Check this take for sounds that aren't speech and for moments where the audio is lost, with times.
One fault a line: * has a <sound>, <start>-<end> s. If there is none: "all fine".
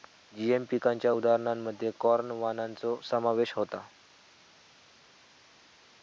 all fine